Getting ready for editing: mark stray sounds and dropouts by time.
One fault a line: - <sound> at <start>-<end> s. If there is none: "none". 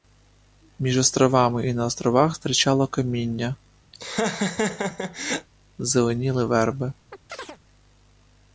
- laugh at 3.9-5.5 s
- chirp at 7.1-7.6 s